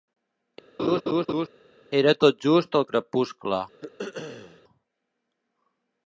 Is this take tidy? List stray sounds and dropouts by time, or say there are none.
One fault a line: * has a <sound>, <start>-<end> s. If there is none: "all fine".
* has a laugh, 0.8-1.5 s
* has a throat clearing, 3.8-4.6 s